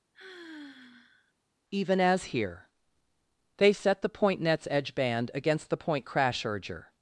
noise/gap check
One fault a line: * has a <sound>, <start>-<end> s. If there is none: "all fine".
* has a sigh, 0.1-1.3 s